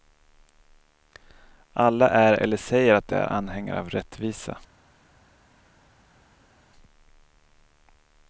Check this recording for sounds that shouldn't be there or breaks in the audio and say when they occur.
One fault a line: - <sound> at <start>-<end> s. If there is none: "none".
none